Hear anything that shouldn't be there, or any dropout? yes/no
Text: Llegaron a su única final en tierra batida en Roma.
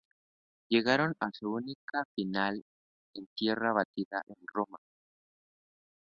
no